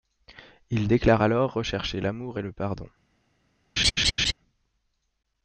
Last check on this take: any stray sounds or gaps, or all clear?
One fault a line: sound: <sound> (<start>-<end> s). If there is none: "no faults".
sound: laugh (3.8-4.3 s)